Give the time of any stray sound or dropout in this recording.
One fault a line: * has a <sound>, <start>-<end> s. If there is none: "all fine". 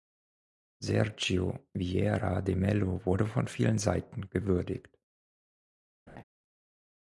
* has a laugh, 6.1-6.2 s